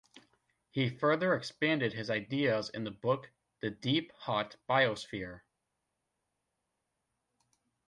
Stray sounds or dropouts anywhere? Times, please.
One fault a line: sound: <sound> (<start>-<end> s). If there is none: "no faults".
no faults